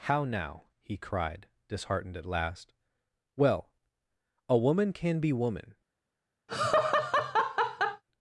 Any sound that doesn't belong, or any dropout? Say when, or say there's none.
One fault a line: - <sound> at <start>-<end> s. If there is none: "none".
- laugh at 6.5-8.0 s